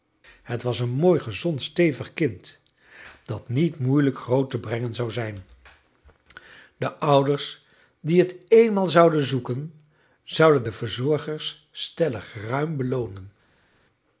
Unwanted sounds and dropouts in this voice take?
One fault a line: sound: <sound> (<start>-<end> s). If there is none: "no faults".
no faults